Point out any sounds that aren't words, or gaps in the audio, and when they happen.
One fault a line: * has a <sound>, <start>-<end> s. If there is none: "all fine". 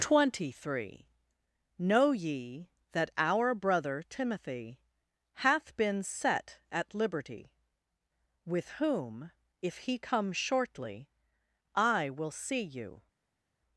all fine